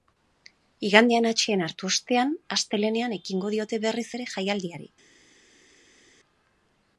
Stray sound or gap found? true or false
false